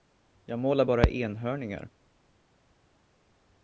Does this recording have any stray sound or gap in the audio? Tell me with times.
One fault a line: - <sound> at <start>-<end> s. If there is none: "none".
none